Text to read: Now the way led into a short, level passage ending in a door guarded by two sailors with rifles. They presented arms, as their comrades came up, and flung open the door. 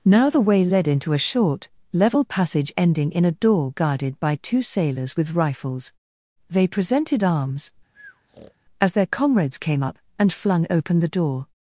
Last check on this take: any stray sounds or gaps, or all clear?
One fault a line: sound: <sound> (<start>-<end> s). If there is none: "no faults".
sound: breath (7.9-8.5 s)